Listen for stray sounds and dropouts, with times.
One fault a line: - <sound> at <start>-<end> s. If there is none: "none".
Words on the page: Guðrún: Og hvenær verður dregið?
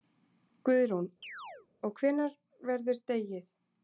- chirp at 1.2-1.7 s